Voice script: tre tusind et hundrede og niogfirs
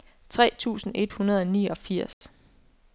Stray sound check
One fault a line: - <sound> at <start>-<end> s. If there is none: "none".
- dropout at 2.1-2.2 s